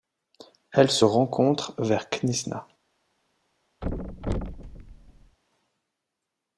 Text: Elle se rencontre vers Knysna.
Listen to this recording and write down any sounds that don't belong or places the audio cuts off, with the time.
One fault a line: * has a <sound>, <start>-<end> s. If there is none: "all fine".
* has a thud, 3.8-5.4 s